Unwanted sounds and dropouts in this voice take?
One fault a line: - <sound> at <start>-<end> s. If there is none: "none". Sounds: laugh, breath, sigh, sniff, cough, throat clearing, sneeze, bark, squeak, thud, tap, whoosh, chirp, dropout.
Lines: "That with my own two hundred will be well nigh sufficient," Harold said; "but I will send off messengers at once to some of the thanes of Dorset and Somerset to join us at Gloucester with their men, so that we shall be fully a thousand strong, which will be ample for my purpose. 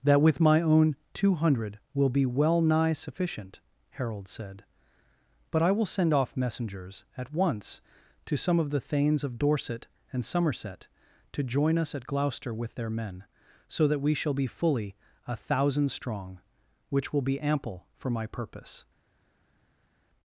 none